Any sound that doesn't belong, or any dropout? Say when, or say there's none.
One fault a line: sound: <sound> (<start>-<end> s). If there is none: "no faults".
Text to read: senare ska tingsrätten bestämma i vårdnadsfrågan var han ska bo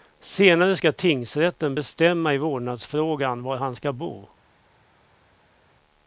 no faults